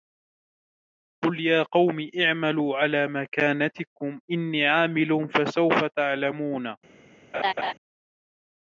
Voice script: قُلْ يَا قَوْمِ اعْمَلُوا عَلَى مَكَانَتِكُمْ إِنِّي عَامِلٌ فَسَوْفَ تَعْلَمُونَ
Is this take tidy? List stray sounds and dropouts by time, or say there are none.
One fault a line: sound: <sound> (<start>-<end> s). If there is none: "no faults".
sound: laugh (7.3-7.7 s)